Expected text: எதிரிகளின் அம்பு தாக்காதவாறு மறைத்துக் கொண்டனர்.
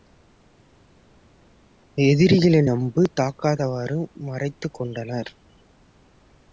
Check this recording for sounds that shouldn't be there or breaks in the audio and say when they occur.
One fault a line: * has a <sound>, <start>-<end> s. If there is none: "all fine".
all fine